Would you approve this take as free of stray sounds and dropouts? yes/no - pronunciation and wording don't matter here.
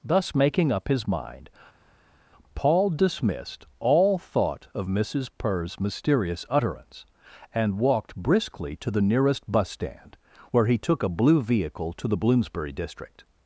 yes